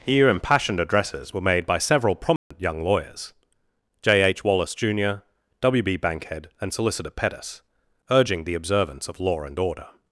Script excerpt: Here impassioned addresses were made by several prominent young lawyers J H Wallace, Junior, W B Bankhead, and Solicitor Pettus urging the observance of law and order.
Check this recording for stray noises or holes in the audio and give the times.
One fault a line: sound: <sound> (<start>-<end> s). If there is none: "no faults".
sound: dropout (2.4-2.5 s)